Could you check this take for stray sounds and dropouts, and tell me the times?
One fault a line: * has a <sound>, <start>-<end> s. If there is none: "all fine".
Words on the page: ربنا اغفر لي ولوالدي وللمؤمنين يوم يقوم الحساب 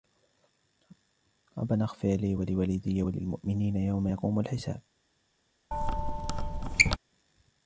* has a squeak, 5.7-7.0 s